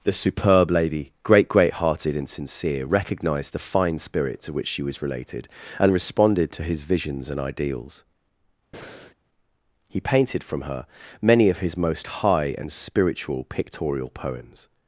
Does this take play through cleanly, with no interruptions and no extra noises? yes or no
no